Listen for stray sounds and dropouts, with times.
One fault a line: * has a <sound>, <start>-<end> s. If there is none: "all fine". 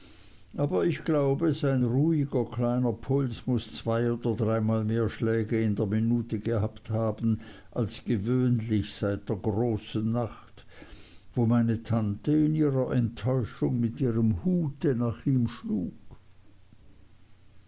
all fine